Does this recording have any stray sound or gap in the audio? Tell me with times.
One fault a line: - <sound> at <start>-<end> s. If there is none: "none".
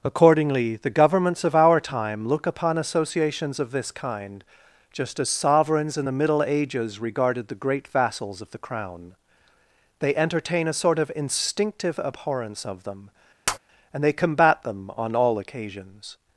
- tap at 13.5-13.6 s